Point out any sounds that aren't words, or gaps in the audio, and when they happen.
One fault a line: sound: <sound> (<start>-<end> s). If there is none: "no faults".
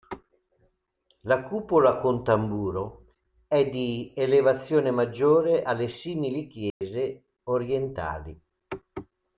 sound: dropout (6.7-6.8 s)